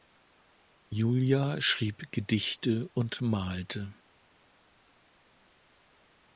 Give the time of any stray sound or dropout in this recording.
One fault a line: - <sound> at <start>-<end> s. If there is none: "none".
none